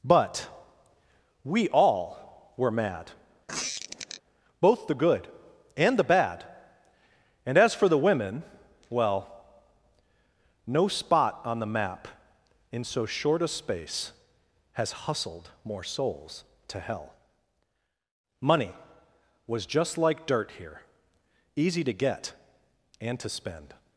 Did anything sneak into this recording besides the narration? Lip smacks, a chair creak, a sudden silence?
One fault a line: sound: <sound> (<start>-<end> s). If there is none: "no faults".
sound: squeak (3.5-4.2 s)